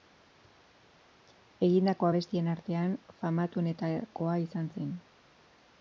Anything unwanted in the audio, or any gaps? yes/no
no